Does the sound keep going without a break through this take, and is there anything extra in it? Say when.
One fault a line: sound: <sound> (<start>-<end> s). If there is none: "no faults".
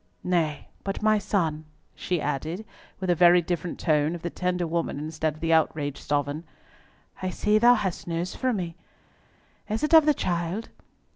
no faults